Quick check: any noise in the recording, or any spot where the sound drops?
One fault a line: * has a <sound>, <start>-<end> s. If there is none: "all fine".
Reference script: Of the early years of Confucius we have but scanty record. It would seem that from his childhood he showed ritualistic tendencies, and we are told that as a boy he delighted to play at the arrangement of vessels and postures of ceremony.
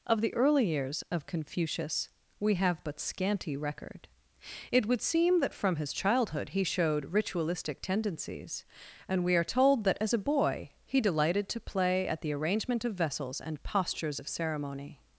all fine